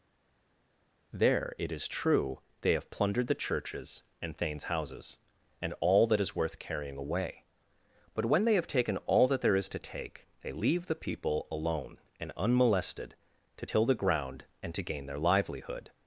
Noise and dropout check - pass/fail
pass